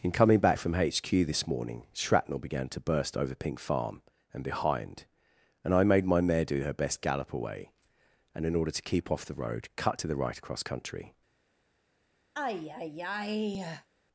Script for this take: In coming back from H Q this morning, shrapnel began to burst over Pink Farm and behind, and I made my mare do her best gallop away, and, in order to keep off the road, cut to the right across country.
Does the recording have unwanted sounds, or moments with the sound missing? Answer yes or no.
yes